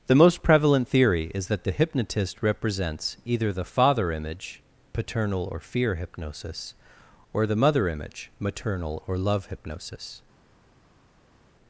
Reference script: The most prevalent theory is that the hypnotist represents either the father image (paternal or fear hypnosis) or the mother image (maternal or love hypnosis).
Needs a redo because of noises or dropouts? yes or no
no